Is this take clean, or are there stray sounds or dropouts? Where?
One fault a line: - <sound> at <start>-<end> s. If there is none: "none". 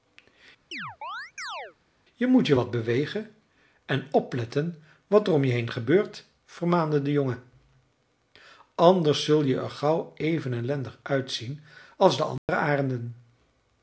- chirp at 0.7-1.8 s
- dropout at 12.4-12.5 s